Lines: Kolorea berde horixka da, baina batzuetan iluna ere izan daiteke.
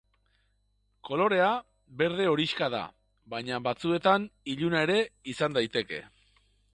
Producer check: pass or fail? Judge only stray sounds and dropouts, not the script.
pass